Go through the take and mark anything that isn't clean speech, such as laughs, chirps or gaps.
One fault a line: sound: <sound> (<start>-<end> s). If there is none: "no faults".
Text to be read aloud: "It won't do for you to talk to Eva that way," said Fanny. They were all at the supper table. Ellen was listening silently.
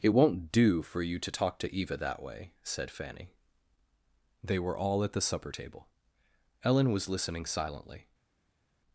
no faults